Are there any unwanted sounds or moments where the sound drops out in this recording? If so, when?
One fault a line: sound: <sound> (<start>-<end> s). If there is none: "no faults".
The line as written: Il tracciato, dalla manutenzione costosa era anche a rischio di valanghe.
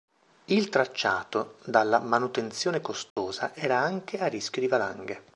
sound: dropout (3.1-3.2 s)